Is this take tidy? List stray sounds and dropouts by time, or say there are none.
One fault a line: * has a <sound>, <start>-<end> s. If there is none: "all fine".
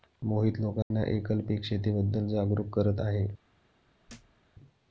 * has a dropout, 0.8-0.9 s
* has a thud, 4.1-4.4 s